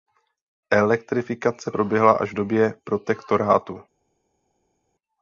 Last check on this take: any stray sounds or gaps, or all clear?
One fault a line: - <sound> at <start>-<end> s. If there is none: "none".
none